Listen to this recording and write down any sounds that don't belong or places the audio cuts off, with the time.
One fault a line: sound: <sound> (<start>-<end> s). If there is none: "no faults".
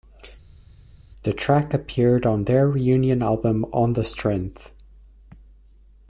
no faults